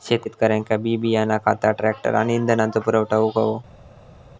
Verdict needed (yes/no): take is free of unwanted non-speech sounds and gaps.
yes